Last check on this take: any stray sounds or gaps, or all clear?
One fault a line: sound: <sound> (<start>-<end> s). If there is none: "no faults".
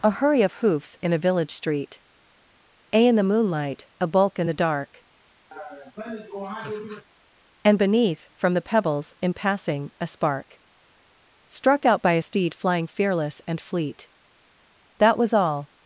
sound: laugh (5.5-7.1 s)